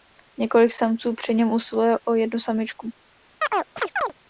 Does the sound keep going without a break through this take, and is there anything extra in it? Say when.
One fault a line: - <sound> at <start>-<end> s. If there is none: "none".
- chirp at 3.4-4.1 s